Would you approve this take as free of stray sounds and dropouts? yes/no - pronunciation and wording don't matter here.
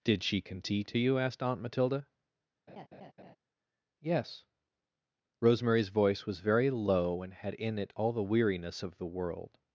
no